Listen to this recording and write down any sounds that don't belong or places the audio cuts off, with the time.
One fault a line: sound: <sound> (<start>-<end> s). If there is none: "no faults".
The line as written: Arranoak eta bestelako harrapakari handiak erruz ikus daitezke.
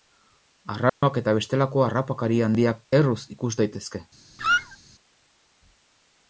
sound: dropout (0.9-1.0 s)
sound: squeak (4.4-4.8 s)